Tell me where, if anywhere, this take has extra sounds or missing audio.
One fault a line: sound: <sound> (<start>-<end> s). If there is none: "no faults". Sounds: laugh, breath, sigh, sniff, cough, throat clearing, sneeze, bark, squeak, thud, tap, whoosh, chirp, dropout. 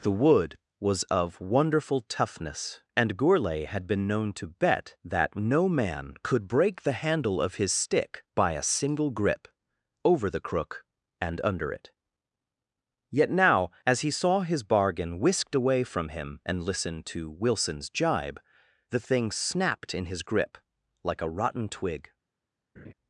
sound: laugh (22.8-22.9 s)